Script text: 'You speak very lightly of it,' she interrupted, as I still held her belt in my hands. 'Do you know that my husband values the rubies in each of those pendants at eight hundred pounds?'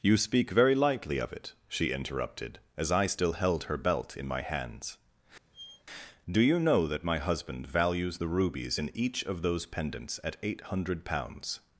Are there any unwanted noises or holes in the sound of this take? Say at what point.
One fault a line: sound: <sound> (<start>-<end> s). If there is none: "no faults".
sound: squeak (5.5-5.8 s)